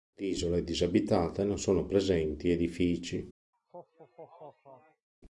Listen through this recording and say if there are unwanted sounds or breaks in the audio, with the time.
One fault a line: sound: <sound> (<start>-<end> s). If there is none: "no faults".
sound: laugh (3.5-5.1 s)